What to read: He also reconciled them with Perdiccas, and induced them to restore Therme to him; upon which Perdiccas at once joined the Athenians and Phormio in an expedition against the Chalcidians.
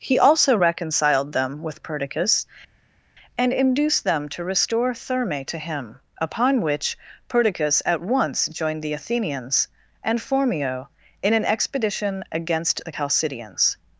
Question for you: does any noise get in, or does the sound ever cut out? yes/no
no